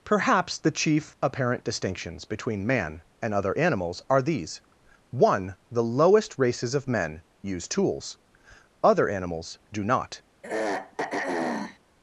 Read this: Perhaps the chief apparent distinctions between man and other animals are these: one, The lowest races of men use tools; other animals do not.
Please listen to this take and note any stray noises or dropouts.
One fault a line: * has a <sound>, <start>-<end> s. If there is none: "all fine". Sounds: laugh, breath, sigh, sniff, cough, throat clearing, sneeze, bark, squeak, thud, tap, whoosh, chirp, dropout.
* has a throat clearing, 10.4-11.8 s